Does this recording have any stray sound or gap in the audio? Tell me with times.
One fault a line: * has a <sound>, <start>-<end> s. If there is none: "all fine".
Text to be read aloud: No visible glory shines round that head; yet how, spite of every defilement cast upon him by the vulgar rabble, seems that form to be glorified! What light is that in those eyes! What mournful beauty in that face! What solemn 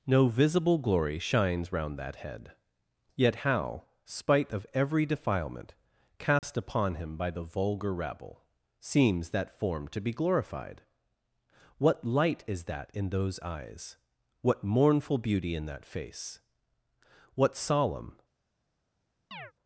* has a dropout, 6.4-6.4 s
* has a chirp, 19.3-19.5 s